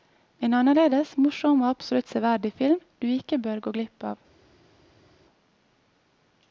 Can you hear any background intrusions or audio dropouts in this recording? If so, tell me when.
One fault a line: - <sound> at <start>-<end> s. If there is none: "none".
none